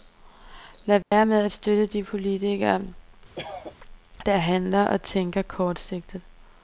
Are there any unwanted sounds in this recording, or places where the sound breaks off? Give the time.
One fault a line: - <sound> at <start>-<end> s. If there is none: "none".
- dropout at 1.0-1.1 s
- cough at 3.3-3.7 s